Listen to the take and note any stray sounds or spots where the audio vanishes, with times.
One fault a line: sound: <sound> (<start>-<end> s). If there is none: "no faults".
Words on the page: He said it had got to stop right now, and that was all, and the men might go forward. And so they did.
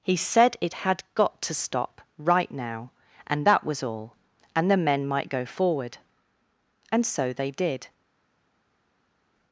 no faults